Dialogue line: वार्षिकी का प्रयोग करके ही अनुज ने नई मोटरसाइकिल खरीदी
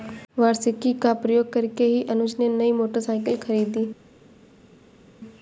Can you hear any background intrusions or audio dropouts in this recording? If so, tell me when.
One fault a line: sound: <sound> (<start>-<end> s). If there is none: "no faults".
no faults